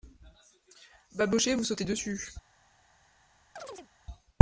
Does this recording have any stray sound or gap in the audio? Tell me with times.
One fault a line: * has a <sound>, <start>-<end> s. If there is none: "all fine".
* has a chirp, 3.6-3.9 s